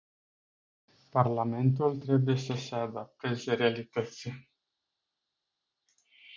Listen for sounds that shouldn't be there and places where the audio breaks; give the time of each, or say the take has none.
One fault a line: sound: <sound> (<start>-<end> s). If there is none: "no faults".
no faults